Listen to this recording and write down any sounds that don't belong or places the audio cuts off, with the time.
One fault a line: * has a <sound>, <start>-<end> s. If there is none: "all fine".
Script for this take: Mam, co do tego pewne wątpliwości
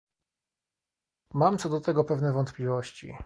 all fine